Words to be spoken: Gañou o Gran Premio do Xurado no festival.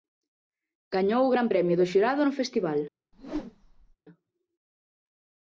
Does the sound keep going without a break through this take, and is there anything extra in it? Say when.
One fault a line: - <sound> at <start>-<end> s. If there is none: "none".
- whoosh at 3.1-4.0 s